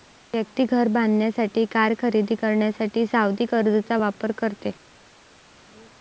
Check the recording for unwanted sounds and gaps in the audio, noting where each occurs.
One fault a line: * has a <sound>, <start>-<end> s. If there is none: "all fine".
all fine